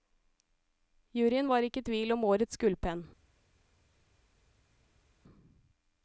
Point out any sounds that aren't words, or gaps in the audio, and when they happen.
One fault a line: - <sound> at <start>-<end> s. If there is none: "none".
none